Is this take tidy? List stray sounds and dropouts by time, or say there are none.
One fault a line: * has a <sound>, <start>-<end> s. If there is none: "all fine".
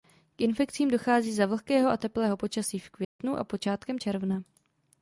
* has a dropout, 3.0-3.2 s